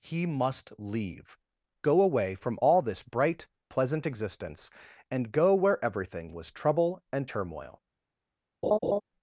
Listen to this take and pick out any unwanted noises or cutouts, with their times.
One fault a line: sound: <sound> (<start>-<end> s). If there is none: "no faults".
sound: laugh (8.6-9.0 s)